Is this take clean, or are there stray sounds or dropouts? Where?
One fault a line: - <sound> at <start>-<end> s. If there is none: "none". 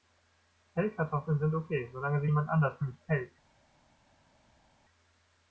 none